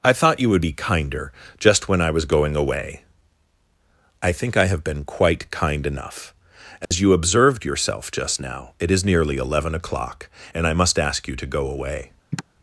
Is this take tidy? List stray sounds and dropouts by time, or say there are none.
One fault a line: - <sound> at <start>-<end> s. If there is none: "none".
- dropout at 6.8-6.9 s
- sigh at 12.3-12.4 s